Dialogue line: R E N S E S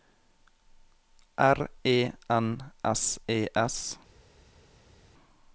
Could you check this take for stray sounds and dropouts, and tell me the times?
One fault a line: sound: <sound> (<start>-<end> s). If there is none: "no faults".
no faults